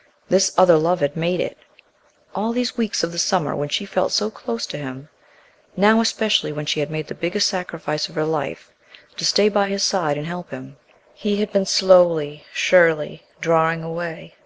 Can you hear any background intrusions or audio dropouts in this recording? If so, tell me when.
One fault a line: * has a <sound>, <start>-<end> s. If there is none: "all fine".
all fine